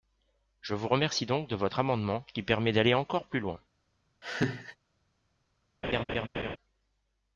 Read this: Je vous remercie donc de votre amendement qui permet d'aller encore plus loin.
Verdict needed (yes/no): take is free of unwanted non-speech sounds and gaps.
no